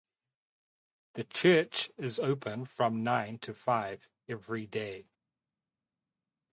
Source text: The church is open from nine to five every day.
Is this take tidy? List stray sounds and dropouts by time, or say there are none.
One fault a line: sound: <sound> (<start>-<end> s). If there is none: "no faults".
no faults